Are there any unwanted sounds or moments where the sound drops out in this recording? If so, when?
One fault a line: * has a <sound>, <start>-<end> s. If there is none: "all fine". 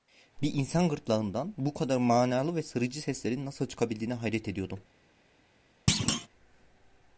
* has a thud, 5.9-6.3 s